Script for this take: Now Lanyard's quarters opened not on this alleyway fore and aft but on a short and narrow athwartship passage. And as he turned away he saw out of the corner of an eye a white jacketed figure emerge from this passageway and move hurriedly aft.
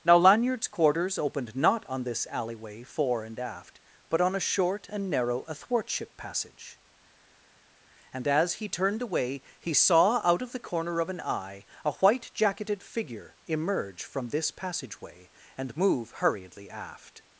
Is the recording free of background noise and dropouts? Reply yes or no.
yes